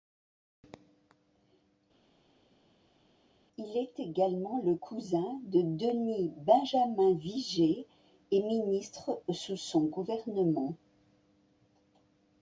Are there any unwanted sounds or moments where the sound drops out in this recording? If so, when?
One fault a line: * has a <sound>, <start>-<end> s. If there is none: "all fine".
all fine